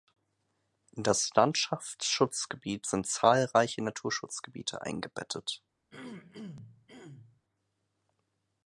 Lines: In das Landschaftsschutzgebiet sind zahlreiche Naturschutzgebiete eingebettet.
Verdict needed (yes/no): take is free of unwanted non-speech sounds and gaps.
no